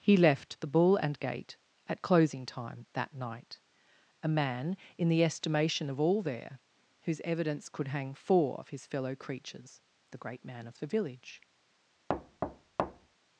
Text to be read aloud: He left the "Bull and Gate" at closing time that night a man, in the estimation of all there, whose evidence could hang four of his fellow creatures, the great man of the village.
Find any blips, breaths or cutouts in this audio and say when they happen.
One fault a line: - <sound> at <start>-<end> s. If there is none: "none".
- thud at 12.1-13.1 s